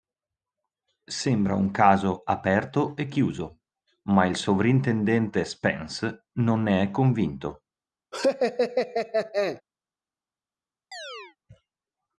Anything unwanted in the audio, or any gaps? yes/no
yes